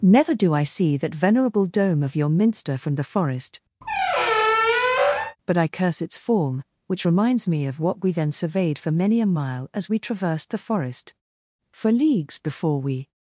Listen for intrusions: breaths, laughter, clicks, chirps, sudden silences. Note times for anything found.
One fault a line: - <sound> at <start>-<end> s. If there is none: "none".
- squeak at 3.8-5.4 s